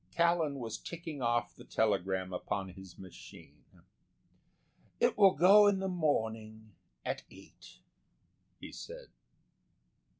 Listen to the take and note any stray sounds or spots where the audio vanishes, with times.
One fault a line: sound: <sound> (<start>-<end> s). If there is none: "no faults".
no faults